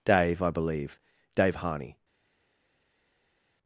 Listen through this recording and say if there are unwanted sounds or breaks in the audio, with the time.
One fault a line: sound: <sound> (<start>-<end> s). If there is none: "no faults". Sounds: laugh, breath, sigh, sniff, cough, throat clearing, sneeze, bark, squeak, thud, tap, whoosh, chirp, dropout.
no faults